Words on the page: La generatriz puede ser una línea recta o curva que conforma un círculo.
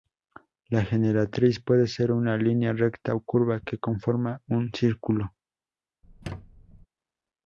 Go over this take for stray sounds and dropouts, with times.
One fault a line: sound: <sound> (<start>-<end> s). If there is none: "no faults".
sound: squeak (6.0-6.9 s)